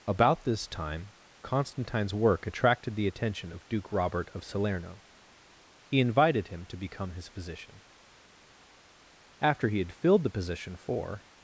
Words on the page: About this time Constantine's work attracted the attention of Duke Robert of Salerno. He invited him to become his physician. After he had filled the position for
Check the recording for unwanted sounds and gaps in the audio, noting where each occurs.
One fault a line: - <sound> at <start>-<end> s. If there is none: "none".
none